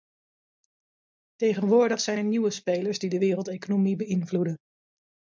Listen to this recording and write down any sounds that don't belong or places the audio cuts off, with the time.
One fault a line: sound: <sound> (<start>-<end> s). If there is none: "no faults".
no faults